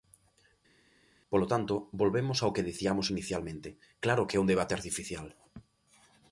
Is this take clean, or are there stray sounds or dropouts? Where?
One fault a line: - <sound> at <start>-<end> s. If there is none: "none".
none